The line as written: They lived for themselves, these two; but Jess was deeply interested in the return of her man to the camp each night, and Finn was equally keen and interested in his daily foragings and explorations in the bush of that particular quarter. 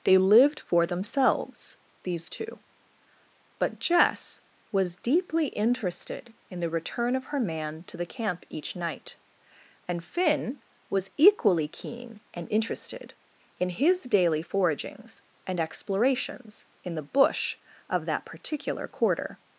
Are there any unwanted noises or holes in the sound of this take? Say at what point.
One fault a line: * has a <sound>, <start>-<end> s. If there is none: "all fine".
all fine